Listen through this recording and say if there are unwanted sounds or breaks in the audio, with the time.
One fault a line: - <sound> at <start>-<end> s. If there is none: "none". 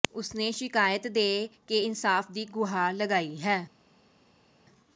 none